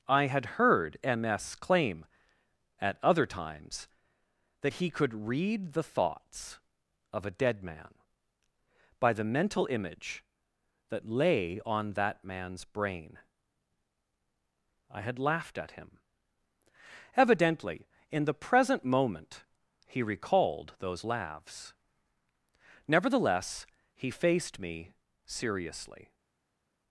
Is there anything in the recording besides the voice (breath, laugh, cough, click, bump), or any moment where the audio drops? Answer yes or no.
no